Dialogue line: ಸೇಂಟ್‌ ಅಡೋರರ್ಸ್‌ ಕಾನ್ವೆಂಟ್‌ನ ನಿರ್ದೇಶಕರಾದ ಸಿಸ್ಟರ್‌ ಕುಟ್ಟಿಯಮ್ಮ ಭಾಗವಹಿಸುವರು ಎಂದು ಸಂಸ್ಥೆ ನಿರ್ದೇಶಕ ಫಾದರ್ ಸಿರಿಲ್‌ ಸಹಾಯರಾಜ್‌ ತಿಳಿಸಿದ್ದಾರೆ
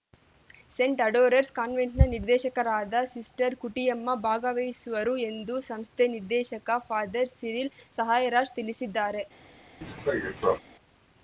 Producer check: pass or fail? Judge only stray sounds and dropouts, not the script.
fail